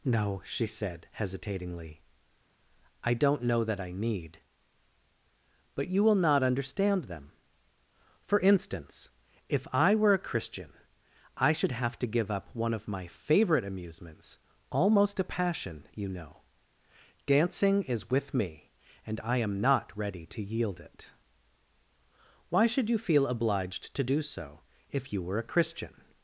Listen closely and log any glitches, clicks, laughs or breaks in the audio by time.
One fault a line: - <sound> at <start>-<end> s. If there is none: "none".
none